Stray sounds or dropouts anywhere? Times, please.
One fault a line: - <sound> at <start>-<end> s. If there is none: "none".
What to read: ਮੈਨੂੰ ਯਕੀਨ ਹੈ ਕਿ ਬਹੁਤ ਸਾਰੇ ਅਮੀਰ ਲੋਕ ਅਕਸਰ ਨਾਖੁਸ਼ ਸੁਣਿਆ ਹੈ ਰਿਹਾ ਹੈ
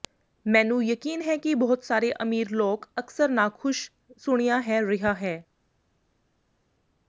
none